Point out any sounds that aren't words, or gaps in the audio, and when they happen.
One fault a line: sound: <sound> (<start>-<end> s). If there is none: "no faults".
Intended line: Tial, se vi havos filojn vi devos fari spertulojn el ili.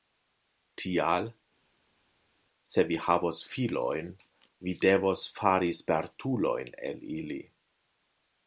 no faults